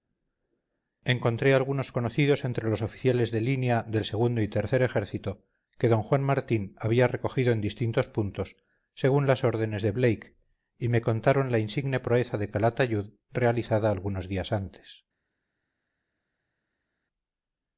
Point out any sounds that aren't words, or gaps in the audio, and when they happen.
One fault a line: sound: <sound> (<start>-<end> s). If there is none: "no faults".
no faults